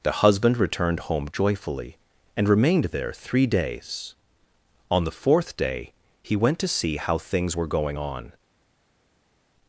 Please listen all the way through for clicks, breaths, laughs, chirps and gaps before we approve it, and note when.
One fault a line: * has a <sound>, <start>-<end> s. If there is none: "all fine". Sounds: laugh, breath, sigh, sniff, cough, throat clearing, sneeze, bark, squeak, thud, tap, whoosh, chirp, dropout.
all fine